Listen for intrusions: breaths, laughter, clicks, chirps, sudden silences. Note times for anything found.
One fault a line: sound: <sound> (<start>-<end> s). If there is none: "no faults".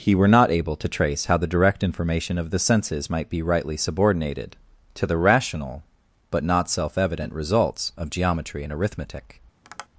sound: tap (9.6-9.9 s)